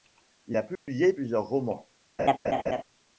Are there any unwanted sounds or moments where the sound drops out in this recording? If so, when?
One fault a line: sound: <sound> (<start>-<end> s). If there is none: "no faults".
sound: dropout (0.8-0.9 s)
sound: laugh (2.2-2.8 s)